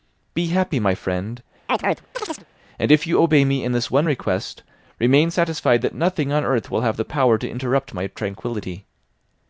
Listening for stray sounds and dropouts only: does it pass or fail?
fail